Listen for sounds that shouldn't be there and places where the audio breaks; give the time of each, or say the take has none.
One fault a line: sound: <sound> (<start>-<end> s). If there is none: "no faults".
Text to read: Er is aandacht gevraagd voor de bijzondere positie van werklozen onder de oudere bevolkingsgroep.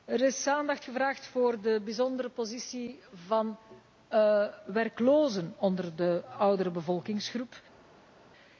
no faults